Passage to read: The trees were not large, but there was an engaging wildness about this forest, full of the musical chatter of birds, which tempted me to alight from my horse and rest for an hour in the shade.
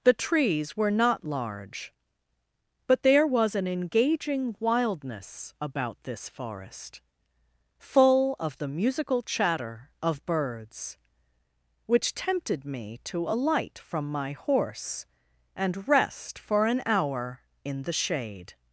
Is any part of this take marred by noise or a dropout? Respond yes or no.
no